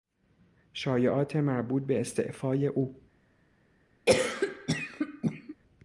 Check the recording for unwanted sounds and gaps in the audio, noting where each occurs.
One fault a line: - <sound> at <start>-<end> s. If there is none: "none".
- cough at 4.1-5.6 s